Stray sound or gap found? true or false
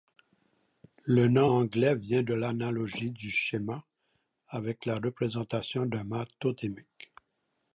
false